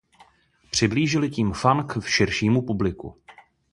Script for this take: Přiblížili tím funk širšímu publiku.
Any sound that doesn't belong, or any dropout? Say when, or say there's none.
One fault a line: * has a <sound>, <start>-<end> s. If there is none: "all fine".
all fine